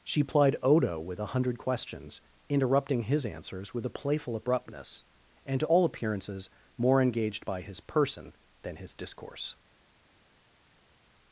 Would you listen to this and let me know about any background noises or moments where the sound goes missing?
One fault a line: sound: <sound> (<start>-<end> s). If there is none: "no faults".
no faults